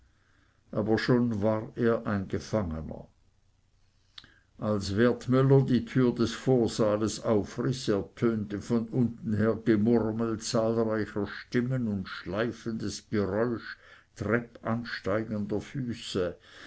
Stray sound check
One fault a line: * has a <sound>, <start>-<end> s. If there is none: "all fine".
all fine